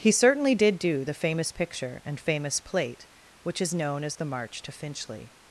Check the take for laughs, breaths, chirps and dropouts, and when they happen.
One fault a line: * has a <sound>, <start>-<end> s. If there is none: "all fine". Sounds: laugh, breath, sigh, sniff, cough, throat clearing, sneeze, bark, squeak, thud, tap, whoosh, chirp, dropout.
all fine